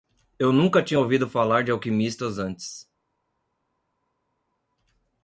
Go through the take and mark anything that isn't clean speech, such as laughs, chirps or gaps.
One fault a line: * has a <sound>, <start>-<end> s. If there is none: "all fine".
all fine